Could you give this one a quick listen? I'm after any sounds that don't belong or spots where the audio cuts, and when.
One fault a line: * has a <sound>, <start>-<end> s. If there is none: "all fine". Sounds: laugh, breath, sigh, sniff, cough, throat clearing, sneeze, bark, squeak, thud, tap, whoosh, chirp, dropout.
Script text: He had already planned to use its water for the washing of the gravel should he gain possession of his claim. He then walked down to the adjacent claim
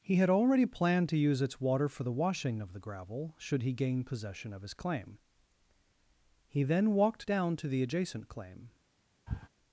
* has a sniff, 9.3-9.5 s